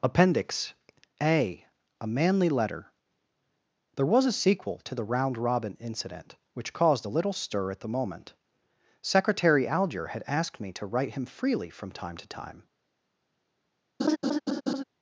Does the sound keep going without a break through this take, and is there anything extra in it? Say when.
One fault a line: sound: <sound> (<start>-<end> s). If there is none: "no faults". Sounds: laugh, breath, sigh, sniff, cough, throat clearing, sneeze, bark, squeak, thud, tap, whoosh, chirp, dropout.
sound: laugh (14.0-14.8 s)